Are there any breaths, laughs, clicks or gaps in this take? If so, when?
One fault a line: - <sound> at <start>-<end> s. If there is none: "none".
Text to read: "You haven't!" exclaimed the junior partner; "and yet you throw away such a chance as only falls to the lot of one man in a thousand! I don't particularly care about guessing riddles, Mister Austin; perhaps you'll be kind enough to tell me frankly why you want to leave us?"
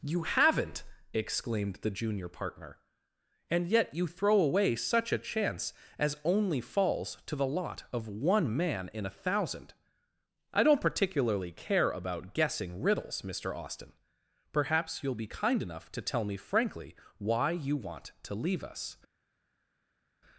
none